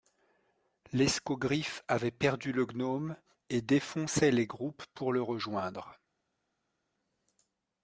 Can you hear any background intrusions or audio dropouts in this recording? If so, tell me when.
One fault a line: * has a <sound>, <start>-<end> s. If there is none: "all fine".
all fine